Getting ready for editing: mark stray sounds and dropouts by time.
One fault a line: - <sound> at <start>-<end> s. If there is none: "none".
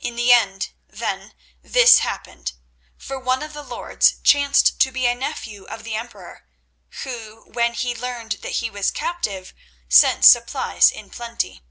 none